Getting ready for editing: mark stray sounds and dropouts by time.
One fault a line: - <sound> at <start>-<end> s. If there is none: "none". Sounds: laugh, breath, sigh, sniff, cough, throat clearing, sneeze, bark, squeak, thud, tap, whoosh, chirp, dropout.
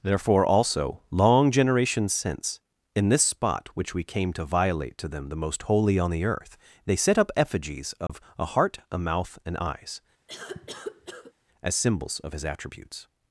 - dropout at 8.1-8.1 s
- cough at 10.3-11.3 s